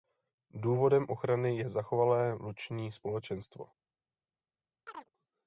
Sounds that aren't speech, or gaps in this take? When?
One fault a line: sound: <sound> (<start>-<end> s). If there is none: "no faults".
sound: chirp (4.9-5.1 s)